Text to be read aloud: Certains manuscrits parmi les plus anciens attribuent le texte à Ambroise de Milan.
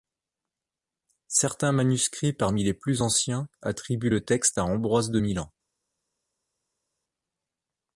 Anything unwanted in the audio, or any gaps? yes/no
no